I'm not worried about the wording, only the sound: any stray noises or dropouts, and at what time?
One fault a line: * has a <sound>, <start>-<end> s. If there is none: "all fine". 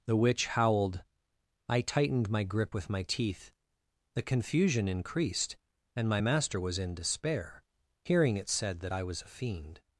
all fine